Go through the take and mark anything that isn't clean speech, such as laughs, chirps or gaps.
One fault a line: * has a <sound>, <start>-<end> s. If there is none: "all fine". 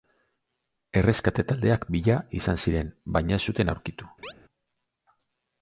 * has a chirp, 4.2-4.3 s